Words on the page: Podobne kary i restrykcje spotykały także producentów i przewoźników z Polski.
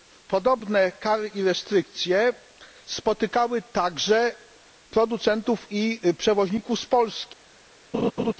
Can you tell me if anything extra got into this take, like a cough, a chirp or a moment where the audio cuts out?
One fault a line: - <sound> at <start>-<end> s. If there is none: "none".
- laugh at 7.9-8.3 s